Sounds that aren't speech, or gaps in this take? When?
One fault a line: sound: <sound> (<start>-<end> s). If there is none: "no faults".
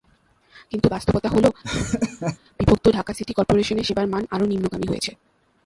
sound: laugh (1.6-2.4 s)